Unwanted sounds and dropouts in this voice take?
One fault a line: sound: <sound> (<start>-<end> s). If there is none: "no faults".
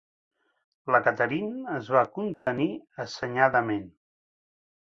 sound: dropout (2.3-2.5 s)